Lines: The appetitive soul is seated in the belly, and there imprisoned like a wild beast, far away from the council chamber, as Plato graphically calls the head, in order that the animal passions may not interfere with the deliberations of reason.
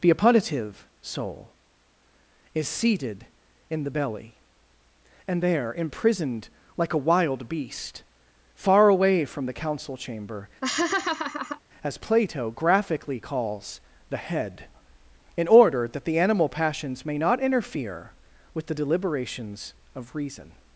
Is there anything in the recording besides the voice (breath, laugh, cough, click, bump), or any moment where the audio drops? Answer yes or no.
yes